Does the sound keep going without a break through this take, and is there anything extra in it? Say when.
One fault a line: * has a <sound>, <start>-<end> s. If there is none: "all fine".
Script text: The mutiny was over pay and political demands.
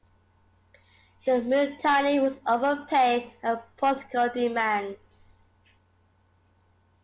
all fine